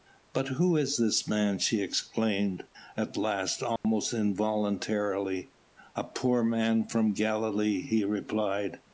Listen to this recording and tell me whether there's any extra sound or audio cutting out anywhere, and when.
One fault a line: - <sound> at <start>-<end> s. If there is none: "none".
- dropout at 3.8-3.8 s